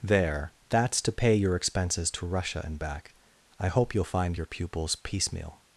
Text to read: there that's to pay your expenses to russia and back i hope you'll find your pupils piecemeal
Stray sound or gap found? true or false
false